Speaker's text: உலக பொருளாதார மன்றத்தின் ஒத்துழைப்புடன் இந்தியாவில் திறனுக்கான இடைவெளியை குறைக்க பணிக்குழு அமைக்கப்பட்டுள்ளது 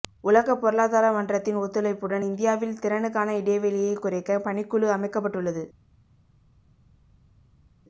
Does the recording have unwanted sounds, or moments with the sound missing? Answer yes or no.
no